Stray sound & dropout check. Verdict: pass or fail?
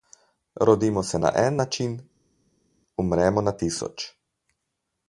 pass